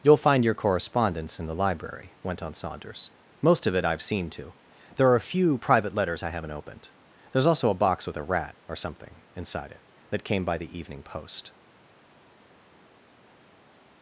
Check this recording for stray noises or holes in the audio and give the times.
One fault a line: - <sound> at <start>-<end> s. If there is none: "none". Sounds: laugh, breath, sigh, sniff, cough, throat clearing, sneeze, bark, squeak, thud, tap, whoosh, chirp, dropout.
none